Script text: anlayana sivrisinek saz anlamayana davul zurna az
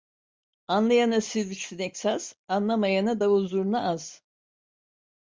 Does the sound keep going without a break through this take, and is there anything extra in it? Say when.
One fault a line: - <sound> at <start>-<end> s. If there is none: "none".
none